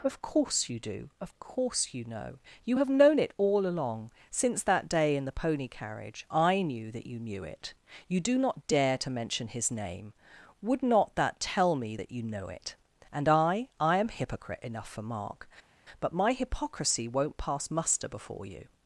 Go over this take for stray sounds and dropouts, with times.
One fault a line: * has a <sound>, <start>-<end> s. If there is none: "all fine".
all fine